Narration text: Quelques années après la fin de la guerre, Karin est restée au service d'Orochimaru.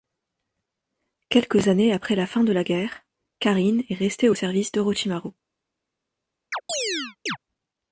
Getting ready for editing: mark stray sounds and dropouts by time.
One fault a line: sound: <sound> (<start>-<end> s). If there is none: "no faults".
sound: chirp (6.5-7.4 s)